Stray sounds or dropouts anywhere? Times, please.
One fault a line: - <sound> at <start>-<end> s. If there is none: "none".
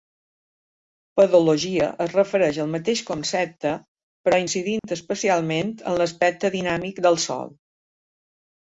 - dropout at 4.8-4.8 s